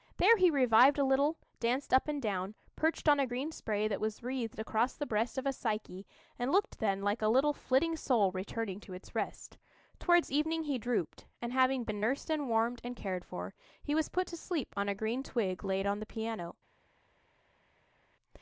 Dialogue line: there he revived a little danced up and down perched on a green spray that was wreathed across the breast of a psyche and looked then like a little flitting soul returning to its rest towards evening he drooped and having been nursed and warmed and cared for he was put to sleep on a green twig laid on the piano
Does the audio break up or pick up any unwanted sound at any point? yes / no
no